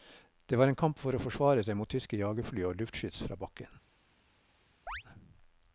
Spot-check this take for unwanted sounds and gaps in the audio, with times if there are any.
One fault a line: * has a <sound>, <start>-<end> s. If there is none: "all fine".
* has a chirp, 4.9-5.0 s